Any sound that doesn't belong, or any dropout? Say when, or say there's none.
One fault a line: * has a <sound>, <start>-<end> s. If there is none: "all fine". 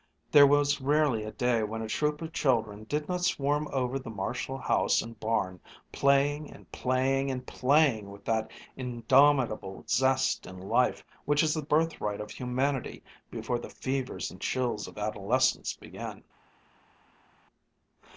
all fine